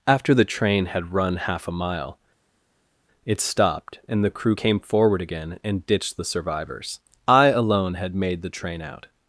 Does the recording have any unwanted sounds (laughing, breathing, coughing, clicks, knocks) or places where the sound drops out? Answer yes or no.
no